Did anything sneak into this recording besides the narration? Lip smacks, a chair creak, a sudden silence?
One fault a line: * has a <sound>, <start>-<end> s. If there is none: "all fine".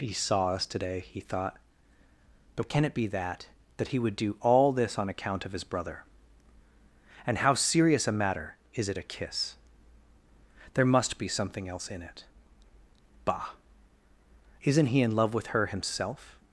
all fine